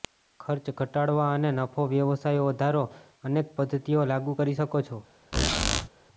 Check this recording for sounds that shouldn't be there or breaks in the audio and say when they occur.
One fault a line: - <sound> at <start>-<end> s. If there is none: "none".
- squeak at 5.3-5.9 s